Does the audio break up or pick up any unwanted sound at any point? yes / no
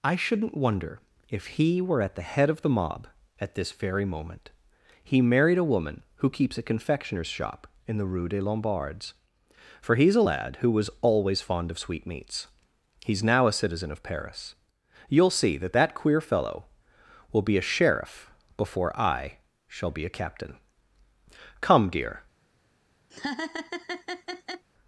yes